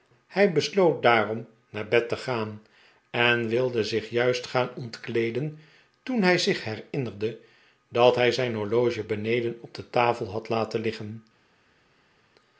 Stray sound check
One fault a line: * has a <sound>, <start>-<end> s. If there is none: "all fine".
all fine